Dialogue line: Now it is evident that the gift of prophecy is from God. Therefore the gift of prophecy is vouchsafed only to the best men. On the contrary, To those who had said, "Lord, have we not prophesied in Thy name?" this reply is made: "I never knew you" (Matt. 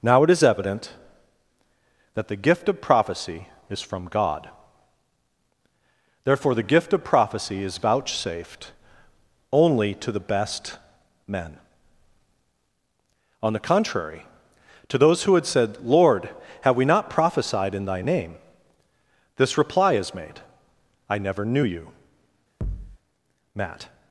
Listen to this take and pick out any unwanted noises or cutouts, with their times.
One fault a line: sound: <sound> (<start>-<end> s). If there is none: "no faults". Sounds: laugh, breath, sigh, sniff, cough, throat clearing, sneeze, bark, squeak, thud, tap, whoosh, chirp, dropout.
sound: thud (22.6-23.0 s)